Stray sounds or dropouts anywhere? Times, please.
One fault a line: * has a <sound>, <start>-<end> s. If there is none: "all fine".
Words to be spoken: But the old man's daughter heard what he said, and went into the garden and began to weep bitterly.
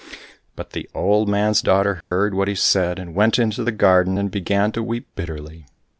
* has a dropout, 2.0-2.1 s